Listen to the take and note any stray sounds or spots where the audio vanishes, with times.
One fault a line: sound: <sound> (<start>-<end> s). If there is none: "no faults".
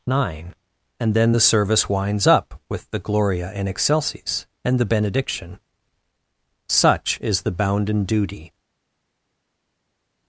no faults